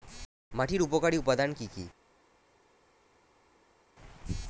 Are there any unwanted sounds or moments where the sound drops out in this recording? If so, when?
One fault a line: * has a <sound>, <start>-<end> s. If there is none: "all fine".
all fine